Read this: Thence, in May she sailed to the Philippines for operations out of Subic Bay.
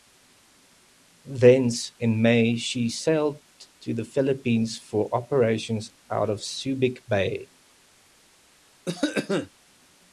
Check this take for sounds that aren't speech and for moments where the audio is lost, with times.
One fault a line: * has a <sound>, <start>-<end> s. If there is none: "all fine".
* has a cough, 8.9-9.5 s